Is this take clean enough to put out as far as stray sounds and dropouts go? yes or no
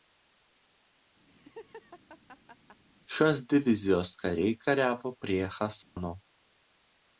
no